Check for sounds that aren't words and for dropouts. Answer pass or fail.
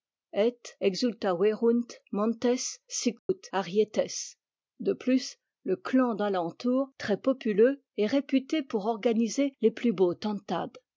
fail